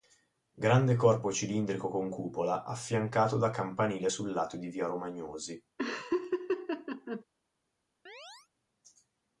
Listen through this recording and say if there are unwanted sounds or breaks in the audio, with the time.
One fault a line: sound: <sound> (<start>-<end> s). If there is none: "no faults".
sound: laugh (5.8-7.2 s)
sound: chirp (8.1-8.5 s)